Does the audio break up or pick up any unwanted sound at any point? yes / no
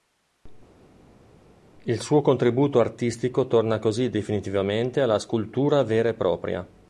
no